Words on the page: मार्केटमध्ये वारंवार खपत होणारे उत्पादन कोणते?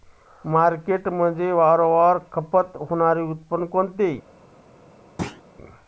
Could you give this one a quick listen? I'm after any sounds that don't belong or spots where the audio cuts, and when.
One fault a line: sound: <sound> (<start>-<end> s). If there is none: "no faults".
sound: thud (5.2-5.4 s)